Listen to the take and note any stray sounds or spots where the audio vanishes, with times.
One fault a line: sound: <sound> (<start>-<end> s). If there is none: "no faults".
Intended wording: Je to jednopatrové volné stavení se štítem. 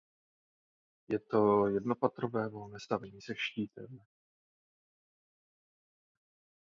no faults